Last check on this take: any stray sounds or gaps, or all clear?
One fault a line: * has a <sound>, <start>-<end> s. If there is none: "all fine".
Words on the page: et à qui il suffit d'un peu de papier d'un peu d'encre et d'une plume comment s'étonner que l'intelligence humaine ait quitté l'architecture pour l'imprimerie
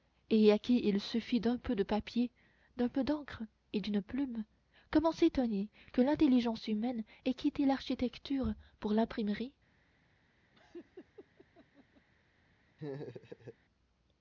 * has a laugh, 10.5-12.1 s
* has a laugh, 12.8-13.6 s